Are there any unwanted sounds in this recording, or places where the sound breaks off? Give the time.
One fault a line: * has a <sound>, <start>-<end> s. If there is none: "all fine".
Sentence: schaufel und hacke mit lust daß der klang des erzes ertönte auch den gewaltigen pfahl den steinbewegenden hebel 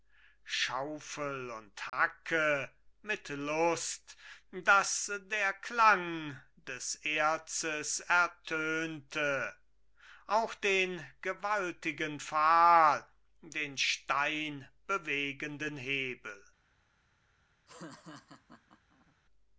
* has a dropout, 1.9-1.9 s
* has a laugh, 17.7-19.2 s